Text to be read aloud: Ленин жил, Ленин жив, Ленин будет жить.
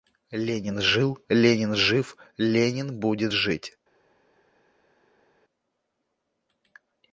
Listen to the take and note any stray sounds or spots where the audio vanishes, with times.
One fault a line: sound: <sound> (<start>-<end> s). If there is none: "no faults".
no faults